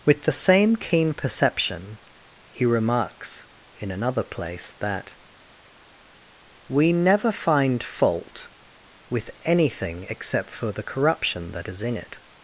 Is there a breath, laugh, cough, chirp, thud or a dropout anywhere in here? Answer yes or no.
no